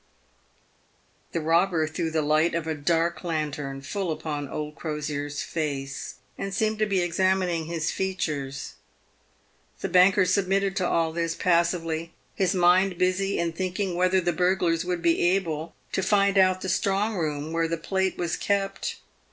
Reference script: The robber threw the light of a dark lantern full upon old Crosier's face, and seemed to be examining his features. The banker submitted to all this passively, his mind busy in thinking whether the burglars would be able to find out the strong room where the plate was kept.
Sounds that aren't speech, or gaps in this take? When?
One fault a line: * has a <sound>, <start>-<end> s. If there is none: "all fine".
all fine